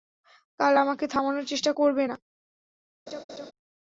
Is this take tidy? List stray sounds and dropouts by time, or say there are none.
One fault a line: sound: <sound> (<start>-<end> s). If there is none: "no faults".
sound: laugh (3.1-3.5 s)